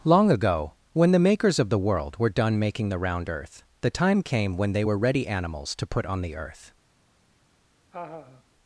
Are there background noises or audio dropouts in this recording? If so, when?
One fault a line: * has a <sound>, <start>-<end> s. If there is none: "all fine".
* has a laugh, 7.9-8.4 s